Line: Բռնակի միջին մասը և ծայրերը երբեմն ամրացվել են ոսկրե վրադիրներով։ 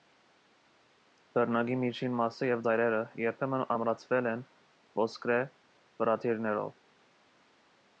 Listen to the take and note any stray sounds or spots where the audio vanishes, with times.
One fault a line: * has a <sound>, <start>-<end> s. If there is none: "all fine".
all fine